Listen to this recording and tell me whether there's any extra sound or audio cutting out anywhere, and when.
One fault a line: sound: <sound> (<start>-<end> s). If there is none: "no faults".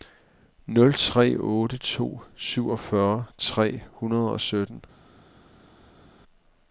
no faults